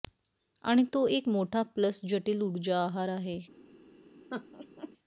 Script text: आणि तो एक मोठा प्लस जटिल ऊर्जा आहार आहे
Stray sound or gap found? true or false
true